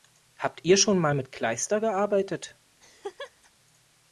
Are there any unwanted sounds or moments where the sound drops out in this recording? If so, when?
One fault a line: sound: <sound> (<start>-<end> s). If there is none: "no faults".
sound: laugh (2.8-3.5 s)